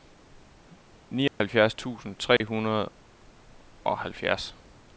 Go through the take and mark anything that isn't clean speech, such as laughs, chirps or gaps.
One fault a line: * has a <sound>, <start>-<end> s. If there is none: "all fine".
* has a dropout, 1.3-1.4 s
* has a dropout, 2.4-2.4 s